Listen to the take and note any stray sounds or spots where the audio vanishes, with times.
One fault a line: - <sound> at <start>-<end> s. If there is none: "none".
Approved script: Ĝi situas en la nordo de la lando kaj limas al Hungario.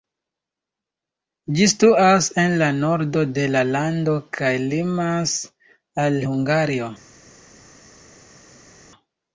none